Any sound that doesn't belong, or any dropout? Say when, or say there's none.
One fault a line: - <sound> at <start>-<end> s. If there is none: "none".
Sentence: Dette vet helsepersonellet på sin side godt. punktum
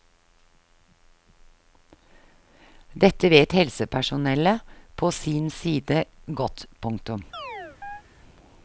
- chirp at 7.3-8.0 s